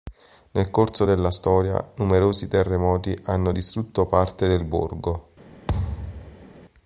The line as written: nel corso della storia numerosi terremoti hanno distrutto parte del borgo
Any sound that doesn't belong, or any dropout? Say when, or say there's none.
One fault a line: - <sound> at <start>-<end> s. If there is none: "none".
- thud at 5.7-6.5 s